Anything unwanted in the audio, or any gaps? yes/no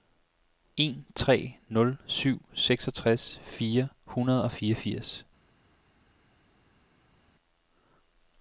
no